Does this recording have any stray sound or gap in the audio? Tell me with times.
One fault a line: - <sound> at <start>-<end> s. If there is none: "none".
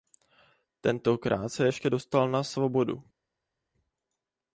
none